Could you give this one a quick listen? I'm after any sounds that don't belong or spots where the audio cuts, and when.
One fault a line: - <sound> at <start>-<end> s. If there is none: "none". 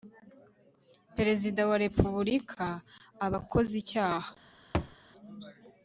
- thud at 4.7-5.0 s